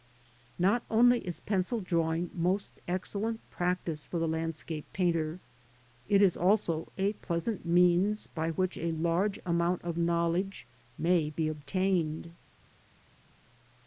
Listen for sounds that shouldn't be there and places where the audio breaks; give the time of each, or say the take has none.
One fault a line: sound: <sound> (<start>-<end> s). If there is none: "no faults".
no faults